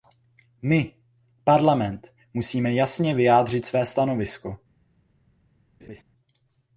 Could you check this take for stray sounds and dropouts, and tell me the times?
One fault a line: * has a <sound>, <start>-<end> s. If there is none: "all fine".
* has a laugh, 5.8-6.0 s